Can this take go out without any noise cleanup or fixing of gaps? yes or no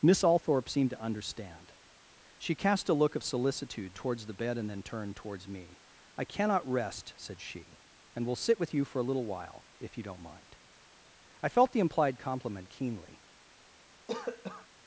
no